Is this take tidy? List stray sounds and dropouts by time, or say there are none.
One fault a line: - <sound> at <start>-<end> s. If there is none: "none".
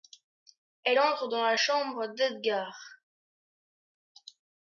none